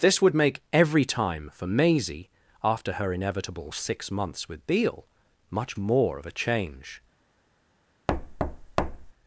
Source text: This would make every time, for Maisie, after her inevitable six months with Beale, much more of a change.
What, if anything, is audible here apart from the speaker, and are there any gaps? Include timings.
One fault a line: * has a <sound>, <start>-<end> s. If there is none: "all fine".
* has a thud, 8.1-9.1 s